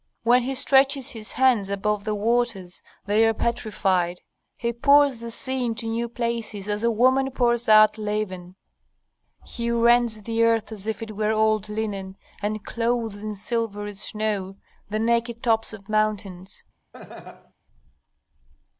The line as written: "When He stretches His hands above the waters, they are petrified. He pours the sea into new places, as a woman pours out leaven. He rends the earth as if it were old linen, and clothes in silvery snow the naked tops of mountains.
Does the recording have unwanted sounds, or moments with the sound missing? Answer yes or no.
yes